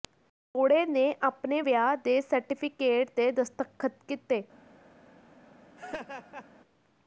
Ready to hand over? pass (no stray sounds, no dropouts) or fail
fail